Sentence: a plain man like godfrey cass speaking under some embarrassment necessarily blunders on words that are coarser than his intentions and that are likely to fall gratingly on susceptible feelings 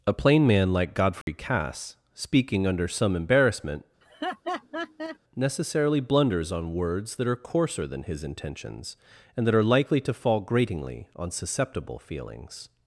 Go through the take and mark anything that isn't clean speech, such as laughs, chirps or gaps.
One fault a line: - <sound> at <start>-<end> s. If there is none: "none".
- dropout at 1.2-1.3 s
- laugh at 4.0-5.2 s